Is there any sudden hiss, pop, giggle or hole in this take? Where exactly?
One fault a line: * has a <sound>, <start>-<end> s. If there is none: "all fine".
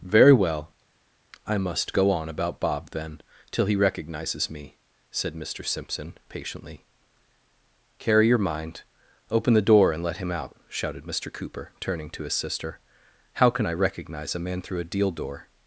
all fine